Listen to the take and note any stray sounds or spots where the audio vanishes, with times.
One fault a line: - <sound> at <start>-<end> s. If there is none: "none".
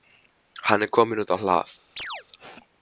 - chirp at 2.0-2.2 s